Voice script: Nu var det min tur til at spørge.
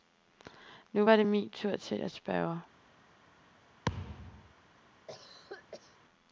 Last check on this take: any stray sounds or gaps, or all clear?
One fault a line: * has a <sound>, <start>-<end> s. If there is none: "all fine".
* has a thud, 3.8-4.5 s
* has a cough, 5.1-6.0 s